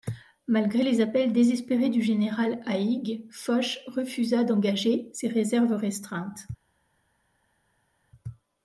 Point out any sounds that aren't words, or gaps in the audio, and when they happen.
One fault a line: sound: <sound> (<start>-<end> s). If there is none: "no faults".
no faults